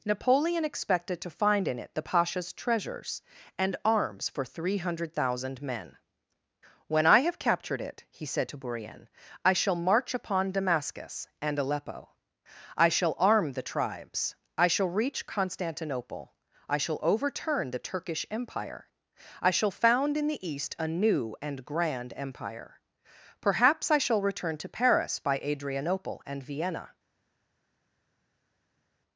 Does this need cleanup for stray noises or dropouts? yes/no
no